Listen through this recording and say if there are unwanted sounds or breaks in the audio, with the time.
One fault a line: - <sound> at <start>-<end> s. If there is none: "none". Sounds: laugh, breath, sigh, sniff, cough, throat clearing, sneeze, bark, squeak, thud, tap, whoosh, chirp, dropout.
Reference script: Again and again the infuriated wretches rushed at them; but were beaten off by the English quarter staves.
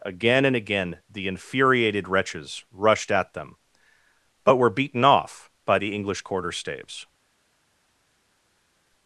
none